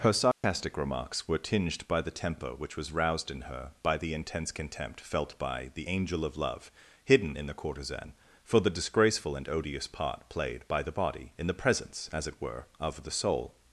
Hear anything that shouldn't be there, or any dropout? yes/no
yes